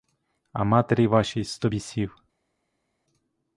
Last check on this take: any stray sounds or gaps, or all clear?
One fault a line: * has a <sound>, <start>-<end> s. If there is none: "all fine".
all fine